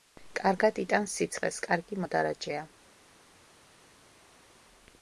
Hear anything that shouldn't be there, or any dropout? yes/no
no